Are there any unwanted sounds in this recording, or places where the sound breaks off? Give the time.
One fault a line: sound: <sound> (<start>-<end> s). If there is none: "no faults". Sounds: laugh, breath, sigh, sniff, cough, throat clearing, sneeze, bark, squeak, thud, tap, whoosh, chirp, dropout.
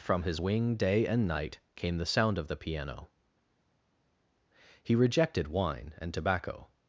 no faults